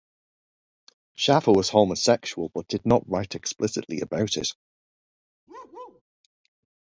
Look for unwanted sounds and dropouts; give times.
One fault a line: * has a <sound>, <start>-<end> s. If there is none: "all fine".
* has a bark, 5.5-6.0 s